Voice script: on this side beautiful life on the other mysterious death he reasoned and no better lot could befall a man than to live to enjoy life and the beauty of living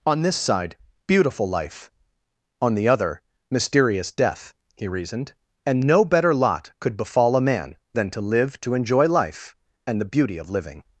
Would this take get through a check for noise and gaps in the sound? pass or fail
pass